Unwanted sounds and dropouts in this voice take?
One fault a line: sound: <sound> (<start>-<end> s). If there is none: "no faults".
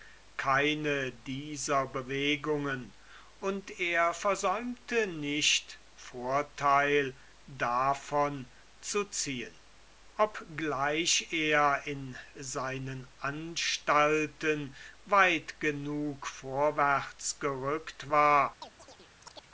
sound: chirp (18.6-19.5 s)